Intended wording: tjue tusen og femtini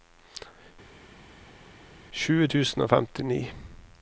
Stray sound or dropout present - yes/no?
no